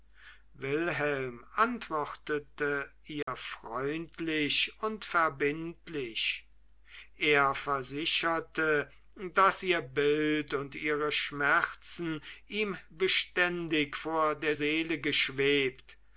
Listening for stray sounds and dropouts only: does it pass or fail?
fail